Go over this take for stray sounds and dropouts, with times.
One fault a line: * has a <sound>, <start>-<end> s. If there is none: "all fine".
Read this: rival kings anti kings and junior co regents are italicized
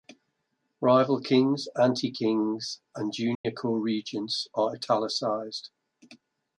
* has a dropout, 3.3-3.4 s